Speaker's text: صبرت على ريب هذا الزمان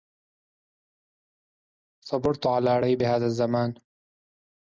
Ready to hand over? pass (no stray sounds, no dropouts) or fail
pass